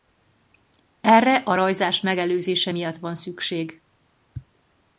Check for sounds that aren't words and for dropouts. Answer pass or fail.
pass